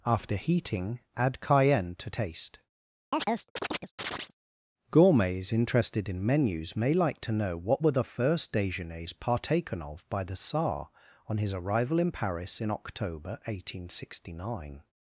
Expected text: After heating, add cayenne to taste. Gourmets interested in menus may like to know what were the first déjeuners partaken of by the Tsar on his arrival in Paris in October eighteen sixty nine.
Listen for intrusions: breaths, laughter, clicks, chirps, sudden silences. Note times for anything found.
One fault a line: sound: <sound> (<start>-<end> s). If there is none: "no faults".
sound: chirp (3.1-4.3 s)